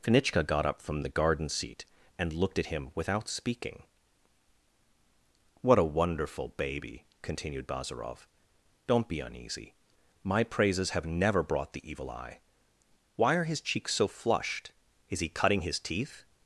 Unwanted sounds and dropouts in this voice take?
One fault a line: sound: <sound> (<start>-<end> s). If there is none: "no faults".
no faults